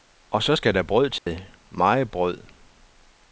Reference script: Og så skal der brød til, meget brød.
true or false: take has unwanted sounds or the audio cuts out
true